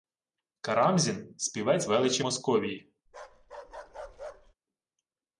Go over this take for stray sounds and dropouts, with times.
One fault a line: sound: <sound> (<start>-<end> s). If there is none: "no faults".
sound: bark (3.1-4.5 s)